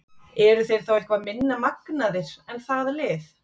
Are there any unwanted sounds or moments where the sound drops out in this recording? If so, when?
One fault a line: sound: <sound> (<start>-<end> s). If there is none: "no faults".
no faults